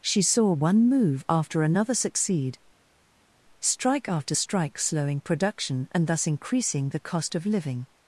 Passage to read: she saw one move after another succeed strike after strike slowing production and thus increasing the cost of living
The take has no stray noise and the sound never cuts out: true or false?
true